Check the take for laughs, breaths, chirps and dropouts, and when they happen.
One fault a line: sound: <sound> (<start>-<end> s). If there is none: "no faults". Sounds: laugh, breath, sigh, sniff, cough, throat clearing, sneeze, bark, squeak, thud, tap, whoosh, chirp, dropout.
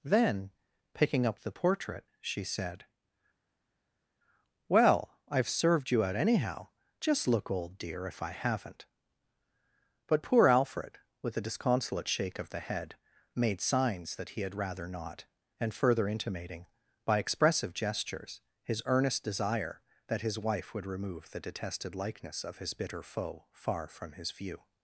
no faults